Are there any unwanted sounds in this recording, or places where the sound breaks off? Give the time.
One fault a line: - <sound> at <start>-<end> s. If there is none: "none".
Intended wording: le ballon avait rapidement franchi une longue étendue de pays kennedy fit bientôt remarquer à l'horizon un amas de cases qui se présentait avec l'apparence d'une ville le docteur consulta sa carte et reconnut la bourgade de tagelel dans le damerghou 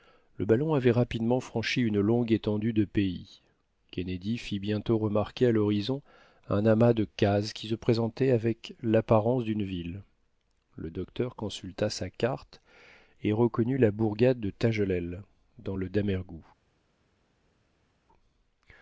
none